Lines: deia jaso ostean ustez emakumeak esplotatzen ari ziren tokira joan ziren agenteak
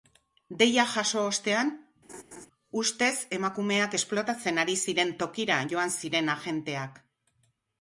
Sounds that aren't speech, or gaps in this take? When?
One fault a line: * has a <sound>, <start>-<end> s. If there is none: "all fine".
* has a laugh, 2.1-2.5 s